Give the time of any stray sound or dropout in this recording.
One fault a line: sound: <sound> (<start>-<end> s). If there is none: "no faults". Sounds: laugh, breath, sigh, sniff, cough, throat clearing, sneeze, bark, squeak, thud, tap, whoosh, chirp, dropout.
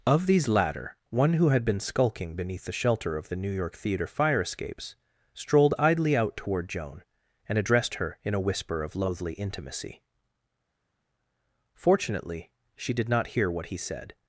no faults